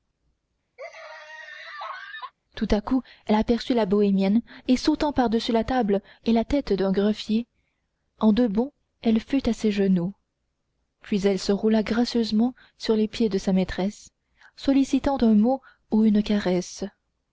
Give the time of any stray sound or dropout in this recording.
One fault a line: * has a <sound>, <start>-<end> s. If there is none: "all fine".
* has a laugh, 0.8-2.3 s